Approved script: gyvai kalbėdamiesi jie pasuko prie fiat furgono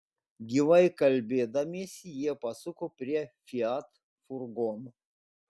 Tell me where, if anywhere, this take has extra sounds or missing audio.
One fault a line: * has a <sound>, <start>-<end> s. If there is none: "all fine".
all fine